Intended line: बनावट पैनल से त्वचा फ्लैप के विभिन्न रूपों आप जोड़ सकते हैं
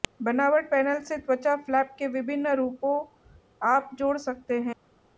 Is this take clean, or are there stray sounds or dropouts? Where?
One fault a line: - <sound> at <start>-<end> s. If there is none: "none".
none